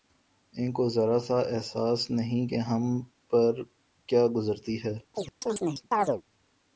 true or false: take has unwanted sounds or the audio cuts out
true